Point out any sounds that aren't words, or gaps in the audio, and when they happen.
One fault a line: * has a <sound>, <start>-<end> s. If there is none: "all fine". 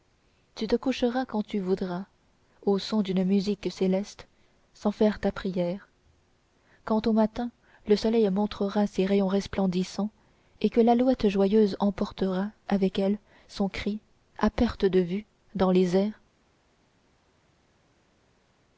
all fine